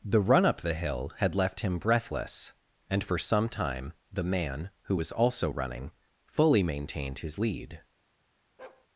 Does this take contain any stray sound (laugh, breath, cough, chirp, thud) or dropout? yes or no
yes